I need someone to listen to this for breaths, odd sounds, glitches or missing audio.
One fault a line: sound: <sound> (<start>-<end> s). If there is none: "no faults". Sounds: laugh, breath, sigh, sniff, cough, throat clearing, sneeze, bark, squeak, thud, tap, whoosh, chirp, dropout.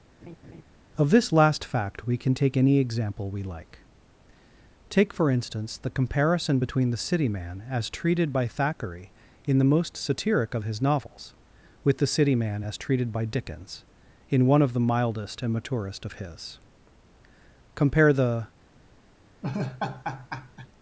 sound: laugh (0.2-0.6 s)
sound: laugh (19.4-20.7 s)